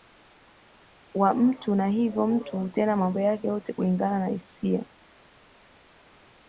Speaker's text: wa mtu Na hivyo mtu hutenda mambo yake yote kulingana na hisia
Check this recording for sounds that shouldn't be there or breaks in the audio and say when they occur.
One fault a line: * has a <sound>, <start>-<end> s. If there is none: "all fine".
all fine